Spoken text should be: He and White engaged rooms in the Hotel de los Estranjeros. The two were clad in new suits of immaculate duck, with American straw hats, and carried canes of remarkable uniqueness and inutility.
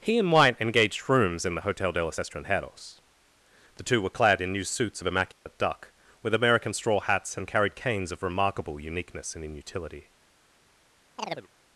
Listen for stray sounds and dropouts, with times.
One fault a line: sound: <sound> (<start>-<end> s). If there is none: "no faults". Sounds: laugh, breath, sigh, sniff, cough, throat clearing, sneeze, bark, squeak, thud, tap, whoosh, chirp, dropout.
sound: dropout (5.3-5.5 s)
sound: chirp (11.2-11.5 s)